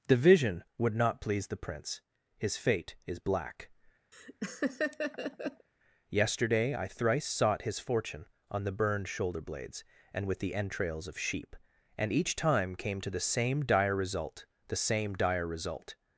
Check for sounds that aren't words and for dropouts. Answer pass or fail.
fail